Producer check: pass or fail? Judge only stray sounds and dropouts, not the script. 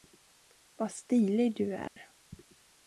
fail